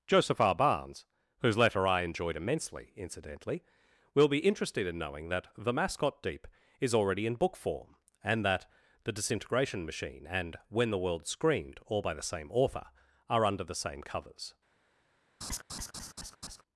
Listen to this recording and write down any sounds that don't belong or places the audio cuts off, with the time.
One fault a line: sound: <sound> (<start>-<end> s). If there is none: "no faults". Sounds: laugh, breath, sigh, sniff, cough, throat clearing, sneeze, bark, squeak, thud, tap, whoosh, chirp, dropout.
sound: laugh (15.4-16.6 s)